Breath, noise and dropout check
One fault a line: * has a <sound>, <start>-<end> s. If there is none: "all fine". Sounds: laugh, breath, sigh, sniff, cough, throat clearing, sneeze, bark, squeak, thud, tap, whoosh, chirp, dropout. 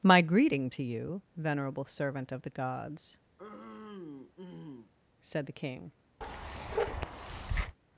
* has a throat clearing, 3.4-4.9 s
* has a bark, 6.2-7.8 s